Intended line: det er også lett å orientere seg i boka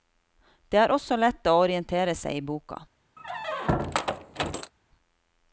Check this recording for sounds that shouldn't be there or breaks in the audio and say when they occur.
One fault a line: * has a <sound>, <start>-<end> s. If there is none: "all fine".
* has a squeak, 3.2-4.7 s